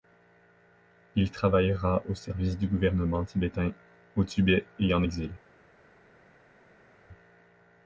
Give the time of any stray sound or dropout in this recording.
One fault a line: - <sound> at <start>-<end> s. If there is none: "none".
none